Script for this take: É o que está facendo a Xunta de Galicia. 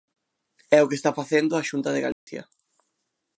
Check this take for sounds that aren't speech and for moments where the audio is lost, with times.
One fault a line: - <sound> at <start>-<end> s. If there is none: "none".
- dropout at 2.1-2.3 s